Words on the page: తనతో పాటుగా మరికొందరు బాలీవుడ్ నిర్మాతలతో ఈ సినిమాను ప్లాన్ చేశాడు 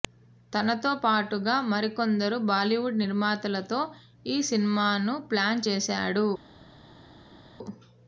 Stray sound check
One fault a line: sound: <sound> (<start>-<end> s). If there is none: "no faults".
no faults